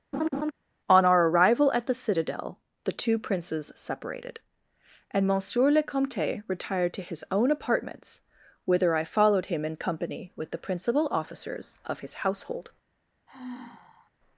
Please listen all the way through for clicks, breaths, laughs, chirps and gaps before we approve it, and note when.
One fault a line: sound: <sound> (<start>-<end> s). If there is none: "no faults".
sound: laugh (0.1-0.5 s)
sound: sigh (13.3-14.1 s)